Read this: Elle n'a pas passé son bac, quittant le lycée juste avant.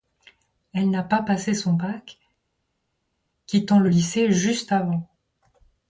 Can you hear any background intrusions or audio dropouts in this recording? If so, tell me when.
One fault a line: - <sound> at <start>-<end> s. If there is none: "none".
none